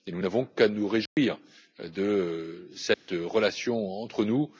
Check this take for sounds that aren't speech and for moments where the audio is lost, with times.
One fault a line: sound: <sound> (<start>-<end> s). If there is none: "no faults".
sound: dropout (1.1-1.2 s)
sound: dropout (2.9-3.1 s)